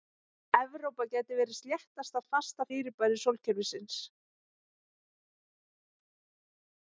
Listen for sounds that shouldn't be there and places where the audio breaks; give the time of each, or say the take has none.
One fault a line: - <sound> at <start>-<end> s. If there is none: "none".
none